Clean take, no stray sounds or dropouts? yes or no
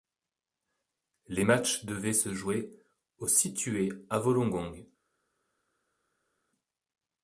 yes